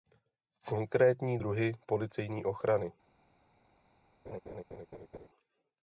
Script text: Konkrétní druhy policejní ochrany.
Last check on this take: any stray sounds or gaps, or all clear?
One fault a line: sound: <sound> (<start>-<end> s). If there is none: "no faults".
sound: laugh (4.3-5.3 s)